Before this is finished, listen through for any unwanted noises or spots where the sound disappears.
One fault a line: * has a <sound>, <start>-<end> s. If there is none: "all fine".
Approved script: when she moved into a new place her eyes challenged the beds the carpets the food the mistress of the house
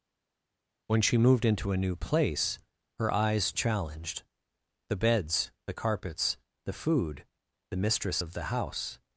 all fine